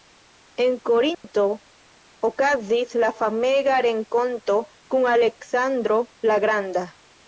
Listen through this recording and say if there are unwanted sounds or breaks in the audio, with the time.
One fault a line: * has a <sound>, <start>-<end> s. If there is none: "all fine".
* has a dropout, 1.1-1.2 s